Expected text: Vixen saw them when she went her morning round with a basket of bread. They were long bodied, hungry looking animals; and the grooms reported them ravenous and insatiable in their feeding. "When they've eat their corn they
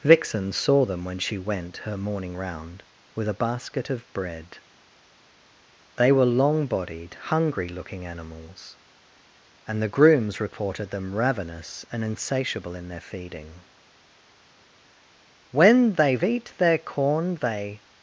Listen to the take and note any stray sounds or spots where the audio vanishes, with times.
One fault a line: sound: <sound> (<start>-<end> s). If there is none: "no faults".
no faults